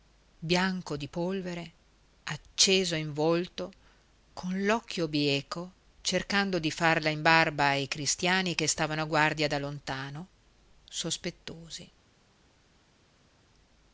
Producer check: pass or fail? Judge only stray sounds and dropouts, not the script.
pass